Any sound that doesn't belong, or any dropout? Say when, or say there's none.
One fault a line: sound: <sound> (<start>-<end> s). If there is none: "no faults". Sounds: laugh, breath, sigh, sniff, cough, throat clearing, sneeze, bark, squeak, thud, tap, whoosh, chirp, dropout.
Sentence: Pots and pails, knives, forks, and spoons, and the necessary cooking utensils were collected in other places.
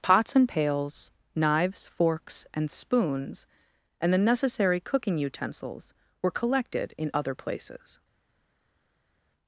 no faults